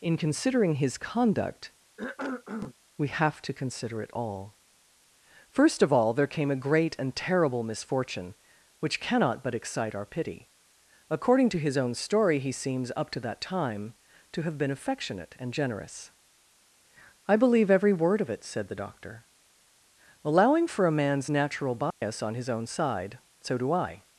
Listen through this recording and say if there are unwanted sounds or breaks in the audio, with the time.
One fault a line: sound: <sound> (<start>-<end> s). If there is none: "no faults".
sound: cough (2.0-2.8 s)
sound: dropout (21.9-22.0 s)